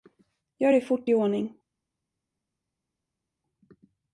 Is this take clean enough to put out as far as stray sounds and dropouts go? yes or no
yes